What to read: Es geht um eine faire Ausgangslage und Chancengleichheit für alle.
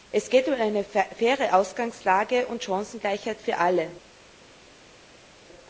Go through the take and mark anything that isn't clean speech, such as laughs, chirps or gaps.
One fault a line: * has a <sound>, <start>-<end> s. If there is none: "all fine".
all fine